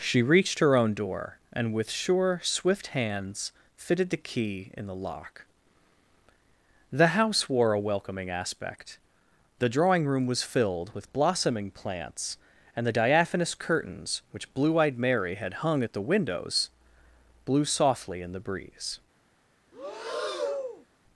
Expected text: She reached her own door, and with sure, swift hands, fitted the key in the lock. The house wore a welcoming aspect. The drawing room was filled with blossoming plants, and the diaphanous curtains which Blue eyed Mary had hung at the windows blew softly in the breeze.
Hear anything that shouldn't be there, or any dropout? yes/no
yes